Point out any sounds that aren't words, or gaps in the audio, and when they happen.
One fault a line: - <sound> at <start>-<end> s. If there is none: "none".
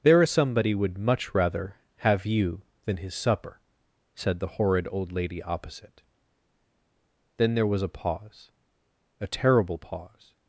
none